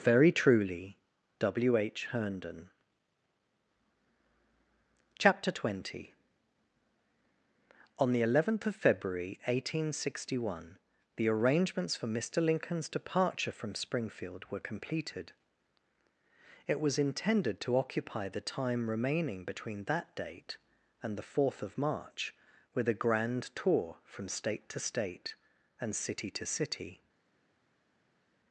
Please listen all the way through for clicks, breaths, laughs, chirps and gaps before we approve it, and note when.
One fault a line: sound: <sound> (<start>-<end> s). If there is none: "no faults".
no faults